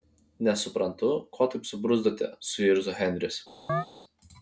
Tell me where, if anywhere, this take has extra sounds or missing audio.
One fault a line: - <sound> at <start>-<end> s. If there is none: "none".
- chirp at 3.7-3.9 s